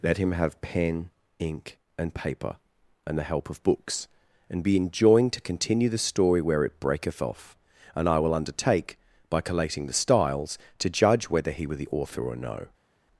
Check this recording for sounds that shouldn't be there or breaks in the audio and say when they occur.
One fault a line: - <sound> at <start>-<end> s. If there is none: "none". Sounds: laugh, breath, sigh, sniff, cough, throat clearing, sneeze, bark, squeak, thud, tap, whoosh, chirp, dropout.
none